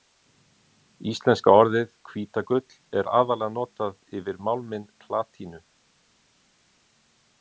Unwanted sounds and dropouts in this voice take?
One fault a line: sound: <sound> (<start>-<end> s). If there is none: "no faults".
no faults